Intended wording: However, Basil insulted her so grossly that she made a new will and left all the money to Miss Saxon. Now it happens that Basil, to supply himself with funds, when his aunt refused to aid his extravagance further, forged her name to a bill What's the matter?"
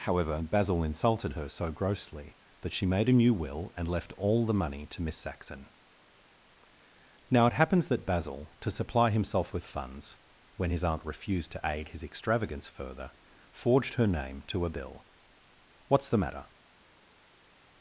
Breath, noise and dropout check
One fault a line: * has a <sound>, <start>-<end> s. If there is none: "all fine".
all fine